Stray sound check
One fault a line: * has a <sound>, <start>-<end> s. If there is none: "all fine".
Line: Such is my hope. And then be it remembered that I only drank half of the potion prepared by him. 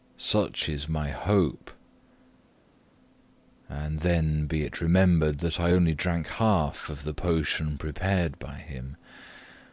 all fine